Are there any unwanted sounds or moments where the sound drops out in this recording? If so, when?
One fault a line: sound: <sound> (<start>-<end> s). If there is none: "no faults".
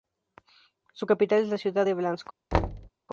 sound: thud (2.5-2.9 s)